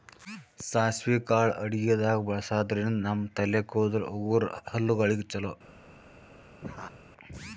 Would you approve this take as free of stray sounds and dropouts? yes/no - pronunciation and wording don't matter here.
no